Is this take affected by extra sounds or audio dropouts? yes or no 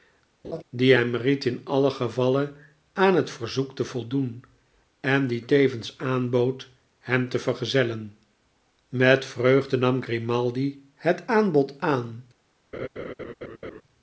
yes